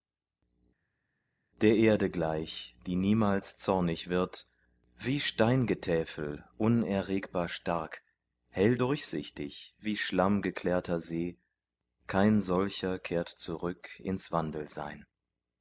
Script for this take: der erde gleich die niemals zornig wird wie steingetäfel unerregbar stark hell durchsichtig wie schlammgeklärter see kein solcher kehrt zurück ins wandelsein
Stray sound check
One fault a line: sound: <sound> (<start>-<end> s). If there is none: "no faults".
no faults